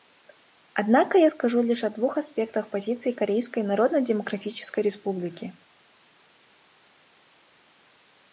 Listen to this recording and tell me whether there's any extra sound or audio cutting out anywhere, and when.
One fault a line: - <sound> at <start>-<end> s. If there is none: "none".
none